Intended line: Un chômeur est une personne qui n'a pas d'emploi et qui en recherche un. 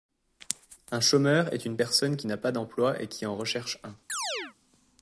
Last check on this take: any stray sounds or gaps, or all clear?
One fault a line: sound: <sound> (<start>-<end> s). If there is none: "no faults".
sound: chirp (4.1-4.5 s)